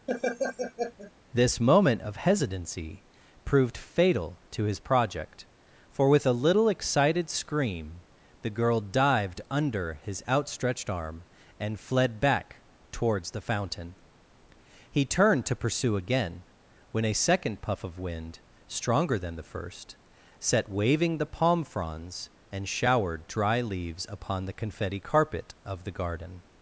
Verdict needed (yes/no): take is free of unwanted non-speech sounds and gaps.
no